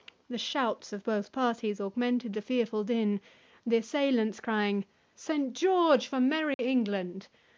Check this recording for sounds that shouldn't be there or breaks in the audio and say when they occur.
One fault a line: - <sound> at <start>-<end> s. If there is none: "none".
- dropout at 6.5-6.6 s